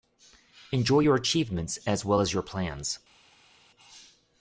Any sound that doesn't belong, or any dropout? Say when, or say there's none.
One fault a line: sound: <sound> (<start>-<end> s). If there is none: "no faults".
no faults